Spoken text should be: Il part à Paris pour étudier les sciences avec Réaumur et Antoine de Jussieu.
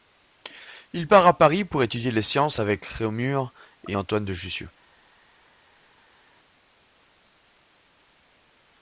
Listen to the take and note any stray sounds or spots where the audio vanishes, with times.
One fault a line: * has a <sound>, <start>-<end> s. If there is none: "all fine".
all fine